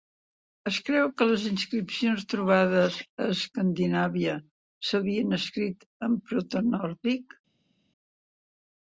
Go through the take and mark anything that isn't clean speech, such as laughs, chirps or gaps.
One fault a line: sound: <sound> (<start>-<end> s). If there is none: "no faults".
no faults